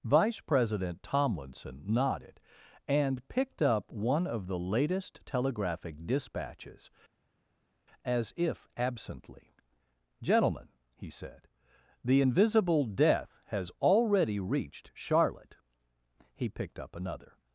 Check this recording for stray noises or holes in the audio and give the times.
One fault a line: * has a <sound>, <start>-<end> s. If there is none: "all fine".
all fine